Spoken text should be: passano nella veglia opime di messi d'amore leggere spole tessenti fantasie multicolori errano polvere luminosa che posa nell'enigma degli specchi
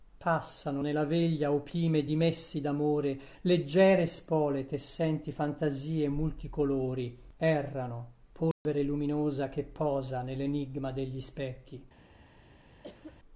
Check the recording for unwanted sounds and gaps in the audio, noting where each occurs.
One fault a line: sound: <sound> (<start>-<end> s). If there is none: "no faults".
sound: dropout (8.5-8.7 s)
sound: cough (12.8-13.2 s)